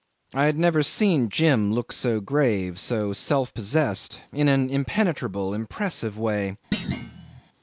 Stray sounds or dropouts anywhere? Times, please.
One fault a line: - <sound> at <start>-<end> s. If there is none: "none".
- thud at 6.7-7.4 s